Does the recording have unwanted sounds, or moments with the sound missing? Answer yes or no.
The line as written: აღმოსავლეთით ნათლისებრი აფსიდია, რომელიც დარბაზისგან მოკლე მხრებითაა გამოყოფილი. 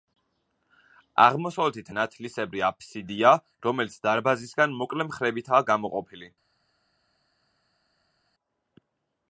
no